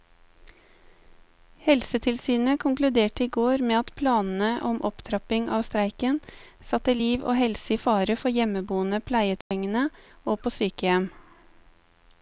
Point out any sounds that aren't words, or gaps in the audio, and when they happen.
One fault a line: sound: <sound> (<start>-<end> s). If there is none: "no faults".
sound: dropout (9.4-9.5 s)